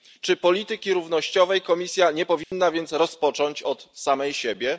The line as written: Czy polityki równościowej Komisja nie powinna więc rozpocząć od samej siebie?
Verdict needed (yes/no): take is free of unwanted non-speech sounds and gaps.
no